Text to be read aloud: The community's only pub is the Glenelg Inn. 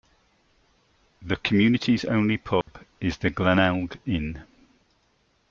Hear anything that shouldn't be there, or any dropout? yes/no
yes